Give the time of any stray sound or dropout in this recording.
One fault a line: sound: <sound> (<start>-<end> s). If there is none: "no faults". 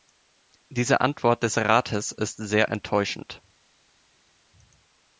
no faults